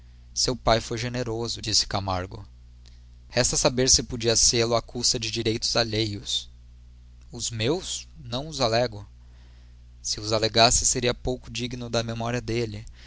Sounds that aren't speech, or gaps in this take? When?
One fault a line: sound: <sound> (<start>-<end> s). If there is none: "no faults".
no faults